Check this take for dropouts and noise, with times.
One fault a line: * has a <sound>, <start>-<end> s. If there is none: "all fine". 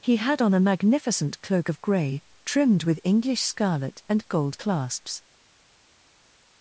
all fine